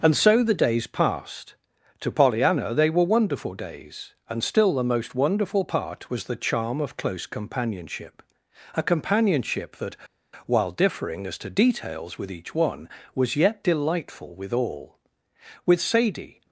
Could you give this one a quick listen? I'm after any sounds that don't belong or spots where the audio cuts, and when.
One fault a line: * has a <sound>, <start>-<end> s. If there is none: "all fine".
all fine